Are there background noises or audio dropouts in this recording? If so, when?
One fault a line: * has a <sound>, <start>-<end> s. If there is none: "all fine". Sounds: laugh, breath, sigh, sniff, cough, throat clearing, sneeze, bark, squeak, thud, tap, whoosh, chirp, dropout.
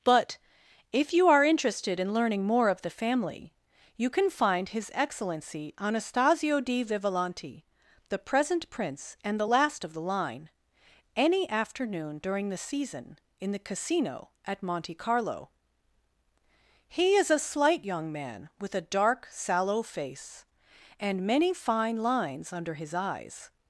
all fine